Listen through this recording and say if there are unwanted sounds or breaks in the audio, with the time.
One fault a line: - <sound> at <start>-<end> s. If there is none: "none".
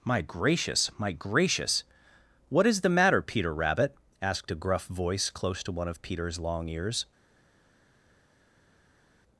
none